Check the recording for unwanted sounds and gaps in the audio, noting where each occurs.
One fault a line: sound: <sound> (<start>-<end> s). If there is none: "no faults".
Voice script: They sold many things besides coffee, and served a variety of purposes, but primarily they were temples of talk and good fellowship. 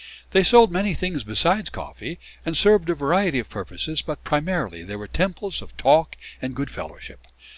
no faults